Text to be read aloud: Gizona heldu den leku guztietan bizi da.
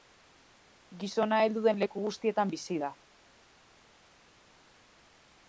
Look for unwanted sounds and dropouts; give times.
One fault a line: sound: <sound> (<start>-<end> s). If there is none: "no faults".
no faults